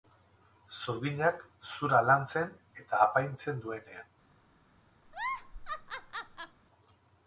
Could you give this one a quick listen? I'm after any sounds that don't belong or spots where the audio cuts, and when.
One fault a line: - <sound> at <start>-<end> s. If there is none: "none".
- laugh at 5.0-6.6 s